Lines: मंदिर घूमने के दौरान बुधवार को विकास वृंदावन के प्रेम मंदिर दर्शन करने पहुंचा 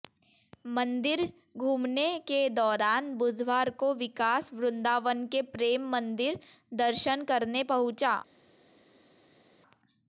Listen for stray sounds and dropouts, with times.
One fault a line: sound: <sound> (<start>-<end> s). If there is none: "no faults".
no faults